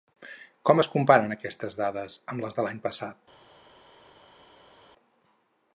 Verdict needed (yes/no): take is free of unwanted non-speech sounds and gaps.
yes